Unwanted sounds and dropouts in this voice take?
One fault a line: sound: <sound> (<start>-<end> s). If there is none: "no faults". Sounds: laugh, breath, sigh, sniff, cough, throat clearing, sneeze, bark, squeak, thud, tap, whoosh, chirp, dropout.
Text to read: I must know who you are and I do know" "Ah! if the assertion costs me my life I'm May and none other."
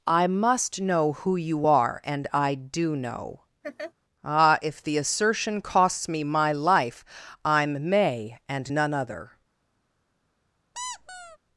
sound: laugh (3.6-3.9 s)
sound: squeak (10.7-11.4 s)